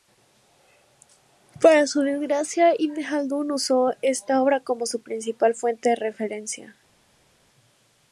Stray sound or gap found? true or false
false